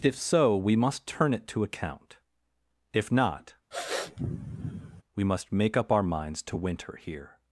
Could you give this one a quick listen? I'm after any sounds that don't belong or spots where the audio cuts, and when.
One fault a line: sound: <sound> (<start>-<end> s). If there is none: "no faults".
sound: sniff (3.7-5.0 s)